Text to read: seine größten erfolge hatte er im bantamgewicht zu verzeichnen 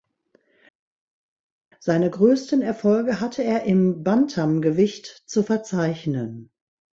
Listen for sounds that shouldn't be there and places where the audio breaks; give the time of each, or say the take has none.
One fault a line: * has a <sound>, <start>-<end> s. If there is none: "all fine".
all fine